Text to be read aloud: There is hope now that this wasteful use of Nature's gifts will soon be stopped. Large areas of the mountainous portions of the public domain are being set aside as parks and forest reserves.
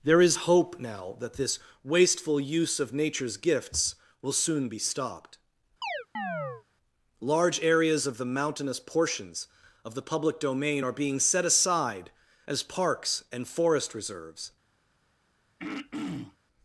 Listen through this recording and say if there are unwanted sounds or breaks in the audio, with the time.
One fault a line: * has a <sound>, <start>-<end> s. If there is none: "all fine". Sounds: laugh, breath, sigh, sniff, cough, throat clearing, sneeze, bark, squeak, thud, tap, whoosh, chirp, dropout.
* has a chirp, 5.8-6.6 s
* has a throat clearing, 15.6-16.4 s